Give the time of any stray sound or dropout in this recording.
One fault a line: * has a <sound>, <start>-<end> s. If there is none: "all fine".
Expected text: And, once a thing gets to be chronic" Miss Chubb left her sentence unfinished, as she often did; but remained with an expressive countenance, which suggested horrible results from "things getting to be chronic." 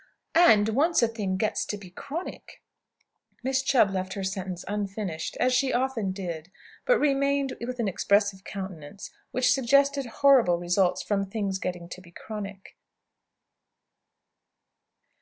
all fine